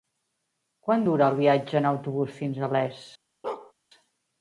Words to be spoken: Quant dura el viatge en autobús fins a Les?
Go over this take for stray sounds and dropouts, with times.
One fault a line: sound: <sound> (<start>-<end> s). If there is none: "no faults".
sound: bark (3.4-3.7 s)